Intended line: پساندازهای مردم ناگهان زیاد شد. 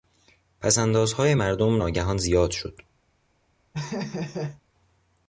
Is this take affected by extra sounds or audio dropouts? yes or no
yes